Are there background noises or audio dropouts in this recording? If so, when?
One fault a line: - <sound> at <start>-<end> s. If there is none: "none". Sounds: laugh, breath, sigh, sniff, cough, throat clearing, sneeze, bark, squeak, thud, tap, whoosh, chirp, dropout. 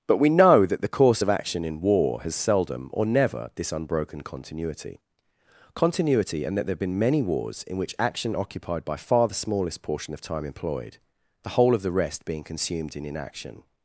none